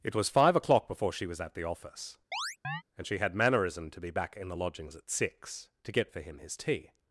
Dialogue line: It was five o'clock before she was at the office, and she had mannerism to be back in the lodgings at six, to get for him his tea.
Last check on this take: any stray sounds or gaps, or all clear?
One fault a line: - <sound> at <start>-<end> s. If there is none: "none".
- chirp at 2.3-2.8 s